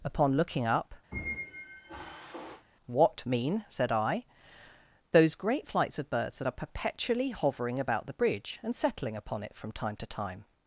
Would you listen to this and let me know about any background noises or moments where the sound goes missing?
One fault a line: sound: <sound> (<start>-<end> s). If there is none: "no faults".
sound: squeak (1.1-2.7 s)